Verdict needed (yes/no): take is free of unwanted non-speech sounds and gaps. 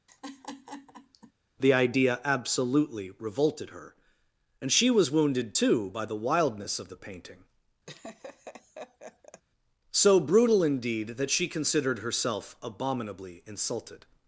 no